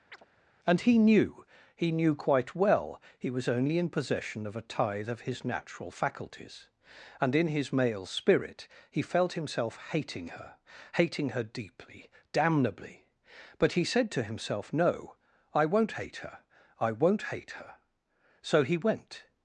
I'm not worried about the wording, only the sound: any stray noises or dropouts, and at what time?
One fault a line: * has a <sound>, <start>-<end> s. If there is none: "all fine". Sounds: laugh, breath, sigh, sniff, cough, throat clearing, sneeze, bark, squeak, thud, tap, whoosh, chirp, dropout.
* has a chirp, 0.1-0.3 s